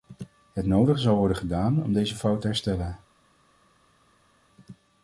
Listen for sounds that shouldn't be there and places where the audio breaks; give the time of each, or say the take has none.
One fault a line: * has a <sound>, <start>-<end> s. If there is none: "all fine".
all fine